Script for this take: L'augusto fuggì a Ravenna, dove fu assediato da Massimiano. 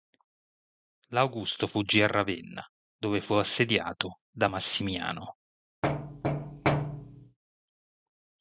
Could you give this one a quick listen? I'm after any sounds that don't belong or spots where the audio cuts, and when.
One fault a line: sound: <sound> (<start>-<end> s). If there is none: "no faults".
sound: thud (5.8-7.4 s)